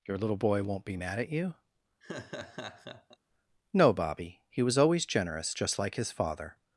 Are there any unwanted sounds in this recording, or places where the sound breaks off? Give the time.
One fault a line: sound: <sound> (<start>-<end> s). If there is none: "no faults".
sound: laugh (2.0-3.2 s)